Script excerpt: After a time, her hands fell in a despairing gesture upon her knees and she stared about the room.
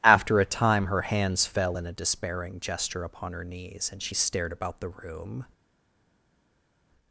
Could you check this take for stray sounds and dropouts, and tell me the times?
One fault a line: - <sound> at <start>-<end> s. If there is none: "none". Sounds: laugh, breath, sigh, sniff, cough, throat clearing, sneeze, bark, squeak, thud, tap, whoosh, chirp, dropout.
none